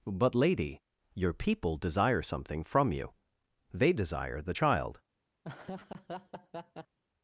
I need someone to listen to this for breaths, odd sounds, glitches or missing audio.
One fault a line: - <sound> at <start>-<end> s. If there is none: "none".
- laugh at 5.4-7.0 s